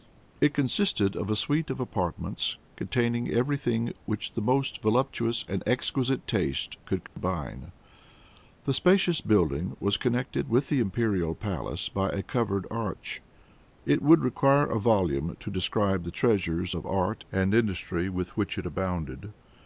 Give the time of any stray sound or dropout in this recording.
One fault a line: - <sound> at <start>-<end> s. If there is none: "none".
- dropout at 7.1-7.2 s